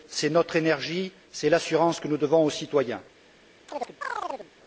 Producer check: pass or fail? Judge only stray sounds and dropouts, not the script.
fail